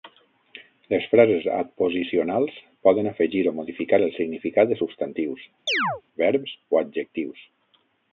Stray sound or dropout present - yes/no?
yes